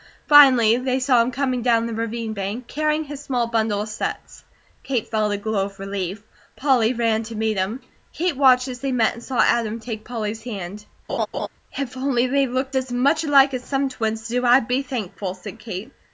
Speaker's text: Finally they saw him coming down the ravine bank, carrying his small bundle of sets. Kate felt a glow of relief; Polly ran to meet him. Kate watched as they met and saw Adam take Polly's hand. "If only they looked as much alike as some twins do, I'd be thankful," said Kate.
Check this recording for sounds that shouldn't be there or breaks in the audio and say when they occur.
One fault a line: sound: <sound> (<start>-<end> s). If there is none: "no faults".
sound: laugh (11.1-11.5 s)